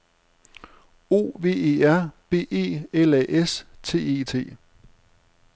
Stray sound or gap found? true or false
false